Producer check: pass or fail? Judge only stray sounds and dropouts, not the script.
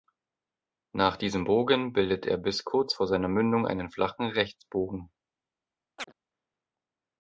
fail